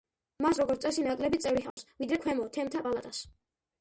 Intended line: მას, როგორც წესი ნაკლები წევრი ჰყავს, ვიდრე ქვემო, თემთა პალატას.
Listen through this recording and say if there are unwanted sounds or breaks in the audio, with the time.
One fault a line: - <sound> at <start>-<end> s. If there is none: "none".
- dropout at 1.7-1.8 s